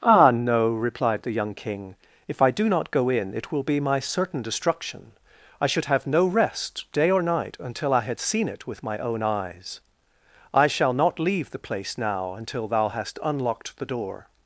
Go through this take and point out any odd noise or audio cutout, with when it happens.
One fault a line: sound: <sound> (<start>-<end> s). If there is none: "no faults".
no faults